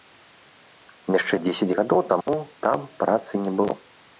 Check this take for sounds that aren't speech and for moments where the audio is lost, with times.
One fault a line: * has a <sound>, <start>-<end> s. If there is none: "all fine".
* has a dropout, 2.2-2.3 s